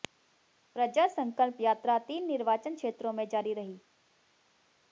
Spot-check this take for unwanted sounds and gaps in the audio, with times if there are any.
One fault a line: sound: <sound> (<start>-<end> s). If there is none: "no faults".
no faults